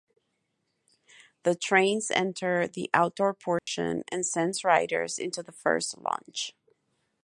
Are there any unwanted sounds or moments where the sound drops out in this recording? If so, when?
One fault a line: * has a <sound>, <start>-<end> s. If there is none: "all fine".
* has a dropout, 3.6-3.7 s